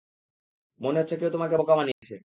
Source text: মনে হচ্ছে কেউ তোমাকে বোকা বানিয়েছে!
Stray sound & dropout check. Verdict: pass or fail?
fail